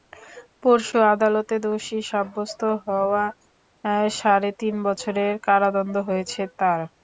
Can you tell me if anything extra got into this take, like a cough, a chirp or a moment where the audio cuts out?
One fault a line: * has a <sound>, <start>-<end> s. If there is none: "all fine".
all fine